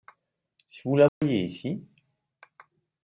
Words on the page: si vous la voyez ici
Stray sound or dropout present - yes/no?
yes